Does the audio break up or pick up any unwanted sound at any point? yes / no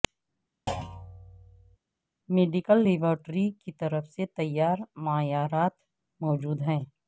yes